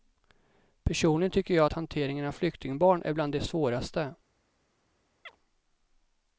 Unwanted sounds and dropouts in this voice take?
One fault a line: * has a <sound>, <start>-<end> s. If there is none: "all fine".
* has a chirp, 5.3-5.4 s